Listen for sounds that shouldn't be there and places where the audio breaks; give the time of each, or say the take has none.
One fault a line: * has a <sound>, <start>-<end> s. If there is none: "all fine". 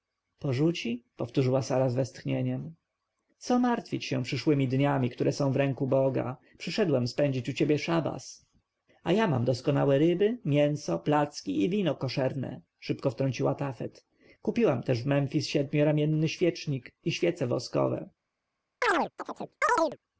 * has a chirp, 18.8-20.0 s